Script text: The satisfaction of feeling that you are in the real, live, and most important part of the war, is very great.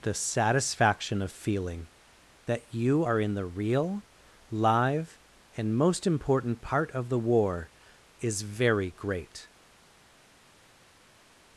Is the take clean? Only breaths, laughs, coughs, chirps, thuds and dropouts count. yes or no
yes